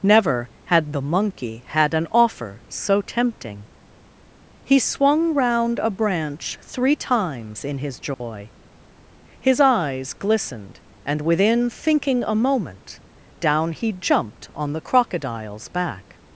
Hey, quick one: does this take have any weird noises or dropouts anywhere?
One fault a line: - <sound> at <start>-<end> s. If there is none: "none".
- dropout at 8.1-8.2 s